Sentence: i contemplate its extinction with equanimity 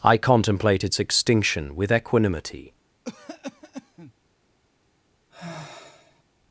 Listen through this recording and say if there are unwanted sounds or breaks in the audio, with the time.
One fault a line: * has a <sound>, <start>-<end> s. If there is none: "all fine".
* has a cough, 3.0-4.1 s
* has a sigh, 5.3-6.2 s